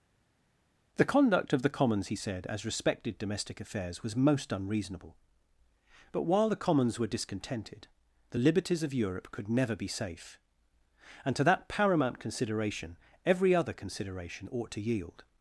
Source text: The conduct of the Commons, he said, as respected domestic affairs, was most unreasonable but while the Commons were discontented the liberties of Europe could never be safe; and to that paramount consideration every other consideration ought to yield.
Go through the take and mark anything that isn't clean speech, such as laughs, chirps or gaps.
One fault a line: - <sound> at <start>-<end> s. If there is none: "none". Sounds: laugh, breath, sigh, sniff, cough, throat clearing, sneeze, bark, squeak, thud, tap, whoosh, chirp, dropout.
none